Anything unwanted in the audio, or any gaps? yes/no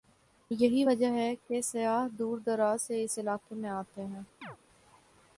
yes